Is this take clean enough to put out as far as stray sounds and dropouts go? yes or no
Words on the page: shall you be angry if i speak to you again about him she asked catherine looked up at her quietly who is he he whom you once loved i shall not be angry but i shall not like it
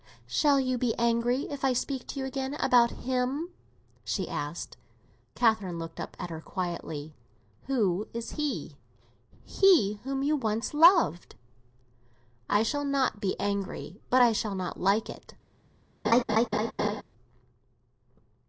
no